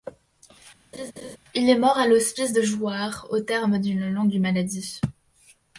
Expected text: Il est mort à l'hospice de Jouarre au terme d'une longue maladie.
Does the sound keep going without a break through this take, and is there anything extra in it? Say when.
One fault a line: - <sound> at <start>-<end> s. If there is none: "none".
- laugh at 0.9-1.4 s